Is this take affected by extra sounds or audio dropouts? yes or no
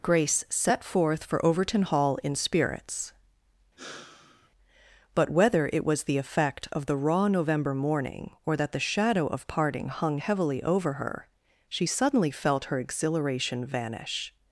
yes